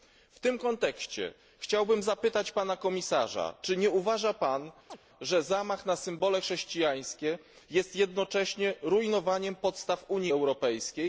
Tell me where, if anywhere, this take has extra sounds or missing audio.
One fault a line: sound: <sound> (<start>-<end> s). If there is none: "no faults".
sound: chirp (4.9-5.0 s)